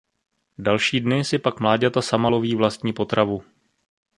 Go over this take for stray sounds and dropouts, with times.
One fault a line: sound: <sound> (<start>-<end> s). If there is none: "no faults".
no faults